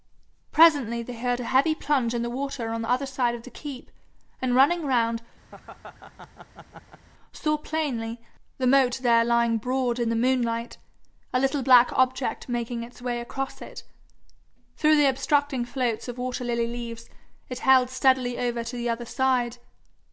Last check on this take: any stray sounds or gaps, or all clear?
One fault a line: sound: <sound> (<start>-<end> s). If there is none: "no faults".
sound: laugh (5.5-7.0 s)